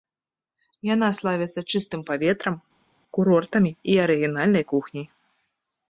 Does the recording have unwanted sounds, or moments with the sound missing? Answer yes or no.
no